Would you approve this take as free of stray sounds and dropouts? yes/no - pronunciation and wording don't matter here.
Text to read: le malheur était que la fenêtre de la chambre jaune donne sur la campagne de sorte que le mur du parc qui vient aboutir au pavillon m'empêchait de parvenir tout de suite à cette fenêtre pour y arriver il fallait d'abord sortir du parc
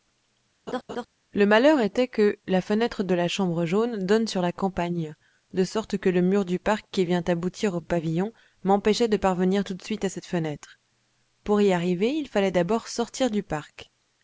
no